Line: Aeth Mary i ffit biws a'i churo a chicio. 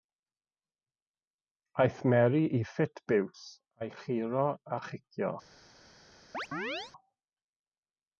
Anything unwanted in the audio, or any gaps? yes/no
yes